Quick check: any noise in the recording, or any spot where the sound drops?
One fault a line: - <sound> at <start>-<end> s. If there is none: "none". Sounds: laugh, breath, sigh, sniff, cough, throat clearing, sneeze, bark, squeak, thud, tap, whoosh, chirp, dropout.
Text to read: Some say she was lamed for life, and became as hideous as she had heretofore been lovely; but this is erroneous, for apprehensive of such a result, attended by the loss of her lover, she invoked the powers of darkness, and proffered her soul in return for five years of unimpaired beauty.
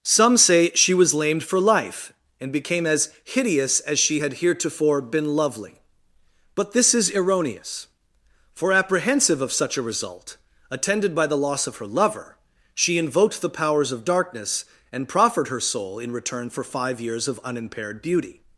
none